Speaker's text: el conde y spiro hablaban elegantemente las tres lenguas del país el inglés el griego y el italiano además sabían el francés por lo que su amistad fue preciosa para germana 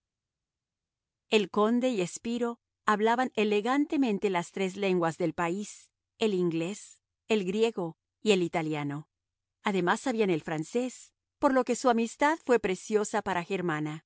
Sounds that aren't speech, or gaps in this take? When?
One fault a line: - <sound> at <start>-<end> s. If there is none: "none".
none